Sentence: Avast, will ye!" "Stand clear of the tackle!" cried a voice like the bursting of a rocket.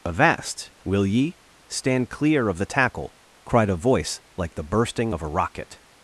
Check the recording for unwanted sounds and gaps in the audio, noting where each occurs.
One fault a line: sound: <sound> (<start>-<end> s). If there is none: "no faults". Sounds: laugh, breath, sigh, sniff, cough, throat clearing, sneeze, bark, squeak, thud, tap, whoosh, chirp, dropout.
no faults